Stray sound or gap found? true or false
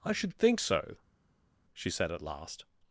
false